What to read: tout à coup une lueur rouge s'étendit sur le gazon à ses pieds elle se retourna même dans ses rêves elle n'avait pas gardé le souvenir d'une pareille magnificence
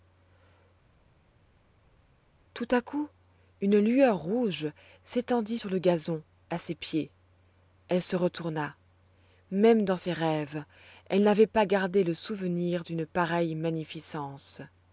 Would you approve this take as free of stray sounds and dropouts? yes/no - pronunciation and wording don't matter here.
yes